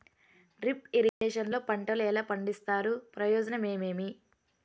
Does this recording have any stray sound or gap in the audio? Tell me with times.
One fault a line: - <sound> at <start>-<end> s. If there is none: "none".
- dropout at 1.1-1.2 s